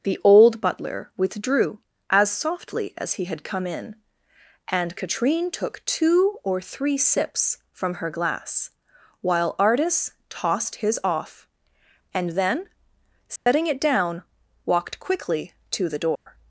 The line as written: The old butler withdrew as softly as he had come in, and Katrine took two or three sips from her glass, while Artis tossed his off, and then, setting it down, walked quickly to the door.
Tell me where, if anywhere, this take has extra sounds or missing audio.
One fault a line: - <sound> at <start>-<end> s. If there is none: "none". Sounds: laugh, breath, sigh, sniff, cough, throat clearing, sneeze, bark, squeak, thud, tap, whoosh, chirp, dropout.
- dropout at 13.4-13.5 s
- dropout at 16.2-16.3 s